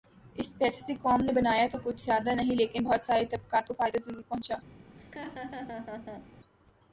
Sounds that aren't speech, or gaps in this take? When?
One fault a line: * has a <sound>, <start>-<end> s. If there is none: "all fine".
* has a laugh, 4.9-6.3 s